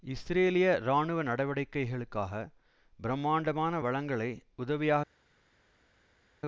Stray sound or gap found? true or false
false